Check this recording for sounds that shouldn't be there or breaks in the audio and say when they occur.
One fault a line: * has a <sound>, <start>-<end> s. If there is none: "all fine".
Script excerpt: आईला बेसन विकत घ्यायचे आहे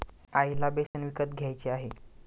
* has a dropout, 0.9-0.9 s